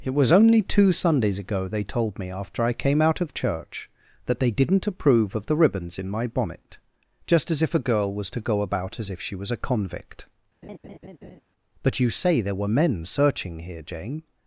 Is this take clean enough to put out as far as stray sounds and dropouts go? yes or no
no